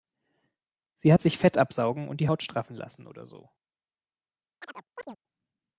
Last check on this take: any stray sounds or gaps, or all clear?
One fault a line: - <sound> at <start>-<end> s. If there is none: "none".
- chirp at 4.6-5.2 s